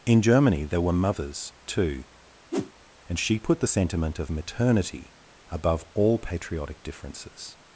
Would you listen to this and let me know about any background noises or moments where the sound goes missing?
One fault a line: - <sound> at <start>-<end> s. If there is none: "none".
- whoosh at 2.5-2.7 s